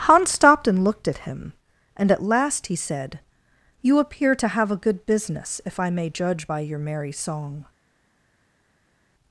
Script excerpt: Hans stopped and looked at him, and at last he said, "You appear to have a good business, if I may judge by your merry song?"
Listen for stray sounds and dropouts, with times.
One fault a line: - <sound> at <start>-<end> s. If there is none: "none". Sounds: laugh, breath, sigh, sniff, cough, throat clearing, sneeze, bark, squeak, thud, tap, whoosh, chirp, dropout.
none